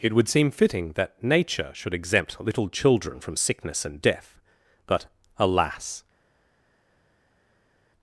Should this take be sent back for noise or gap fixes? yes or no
no